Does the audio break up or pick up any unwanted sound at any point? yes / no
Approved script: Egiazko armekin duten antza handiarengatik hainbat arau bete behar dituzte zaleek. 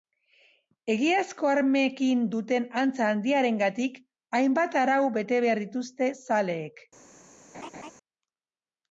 yes